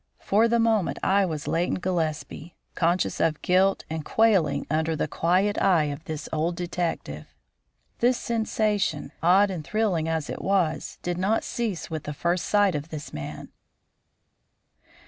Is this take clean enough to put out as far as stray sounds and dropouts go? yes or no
yes